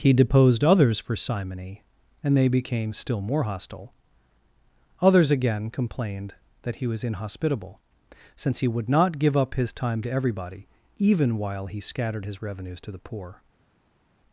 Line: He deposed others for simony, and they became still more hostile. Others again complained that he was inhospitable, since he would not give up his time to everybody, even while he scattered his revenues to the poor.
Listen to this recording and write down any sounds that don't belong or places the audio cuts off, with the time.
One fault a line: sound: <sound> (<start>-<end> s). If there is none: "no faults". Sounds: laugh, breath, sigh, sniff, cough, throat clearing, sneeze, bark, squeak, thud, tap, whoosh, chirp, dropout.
no faults